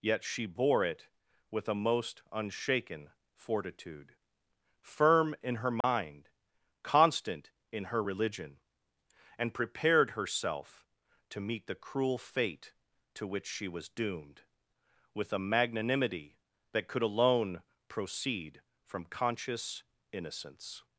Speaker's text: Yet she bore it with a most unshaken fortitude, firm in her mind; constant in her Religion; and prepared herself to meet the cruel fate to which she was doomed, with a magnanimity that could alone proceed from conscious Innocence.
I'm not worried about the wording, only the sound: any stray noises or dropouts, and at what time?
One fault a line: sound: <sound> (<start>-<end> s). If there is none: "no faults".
sound: dropout (5.8-5.8 s)